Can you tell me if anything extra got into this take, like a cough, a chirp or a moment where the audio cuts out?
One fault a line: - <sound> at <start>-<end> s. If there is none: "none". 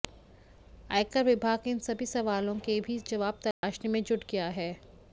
- dropout at 3.5-3.6 s